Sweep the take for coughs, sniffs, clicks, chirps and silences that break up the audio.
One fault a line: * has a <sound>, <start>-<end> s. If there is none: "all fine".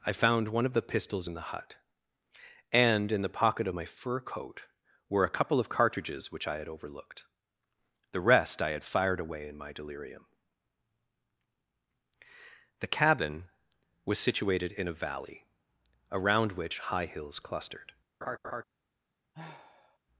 * has a laugh, 18.2-18.6 s
* has a sigh, 19.3-20.0 s